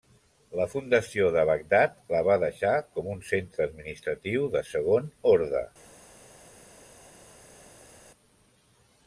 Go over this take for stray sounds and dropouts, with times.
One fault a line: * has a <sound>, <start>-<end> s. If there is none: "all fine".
all fine